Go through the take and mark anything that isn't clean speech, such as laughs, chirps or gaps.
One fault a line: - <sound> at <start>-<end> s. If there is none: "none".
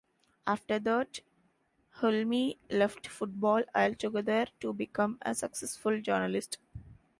none